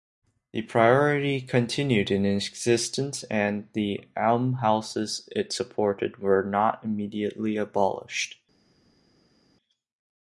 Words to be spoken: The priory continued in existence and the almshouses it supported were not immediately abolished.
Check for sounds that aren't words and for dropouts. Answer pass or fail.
pass